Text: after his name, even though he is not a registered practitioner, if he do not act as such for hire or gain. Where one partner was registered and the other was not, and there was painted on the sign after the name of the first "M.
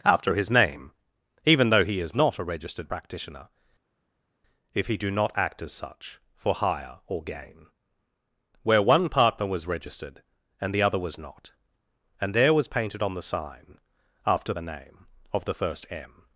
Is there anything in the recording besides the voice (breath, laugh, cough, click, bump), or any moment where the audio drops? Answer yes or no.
no